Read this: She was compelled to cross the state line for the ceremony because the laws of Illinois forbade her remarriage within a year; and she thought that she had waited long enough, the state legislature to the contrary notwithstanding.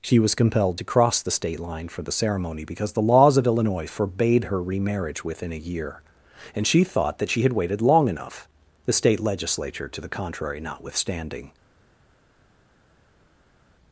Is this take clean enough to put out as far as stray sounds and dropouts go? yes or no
yes